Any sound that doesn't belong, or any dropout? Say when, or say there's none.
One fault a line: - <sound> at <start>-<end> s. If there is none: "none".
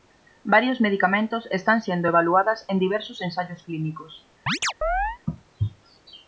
- chirp at 4.5-5.2 s